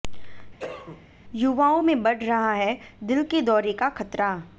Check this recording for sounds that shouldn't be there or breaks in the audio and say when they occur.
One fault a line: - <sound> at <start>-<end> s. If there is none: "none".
- cough at 0.6-1.1 s